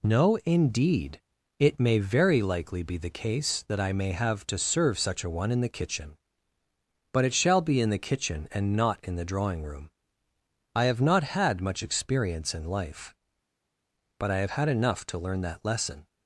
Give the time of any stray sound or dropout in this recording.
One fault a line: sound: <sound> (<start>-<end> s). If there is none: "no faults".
no faults